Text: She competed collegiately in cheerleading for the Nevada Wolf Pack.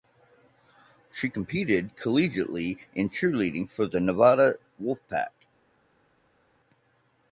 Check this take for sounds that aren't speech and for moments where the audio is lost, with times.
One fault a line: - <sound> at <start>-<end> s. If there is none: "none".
none